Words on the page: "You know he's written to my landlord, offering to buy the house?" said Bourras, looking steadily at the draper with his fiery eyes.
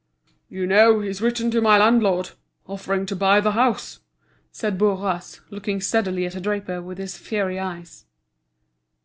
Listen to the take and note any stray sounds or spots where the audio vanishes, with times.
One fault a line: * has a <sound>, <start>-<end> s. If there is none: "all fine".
all fine